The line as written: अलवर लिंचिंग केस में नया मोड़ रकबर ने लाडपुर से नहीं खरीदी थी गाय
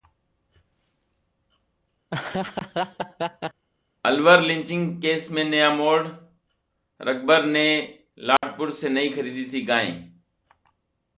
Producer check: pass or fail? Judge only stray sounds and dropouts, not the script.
fail